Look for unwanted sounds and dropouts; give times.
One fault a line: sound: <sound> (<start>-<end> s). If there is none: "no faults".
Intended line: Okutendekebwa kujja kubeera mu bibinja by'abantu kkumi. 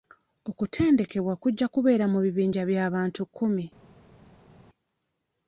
no faults